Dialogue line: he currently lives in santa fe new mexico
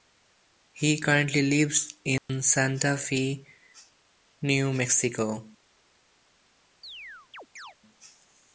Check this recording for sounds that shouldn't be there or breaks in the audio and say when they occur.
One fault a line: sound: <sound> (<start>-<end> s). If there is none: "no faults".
sound: dropout (2.2-2.3 s)
sound: chirp (6.8-7.8 s)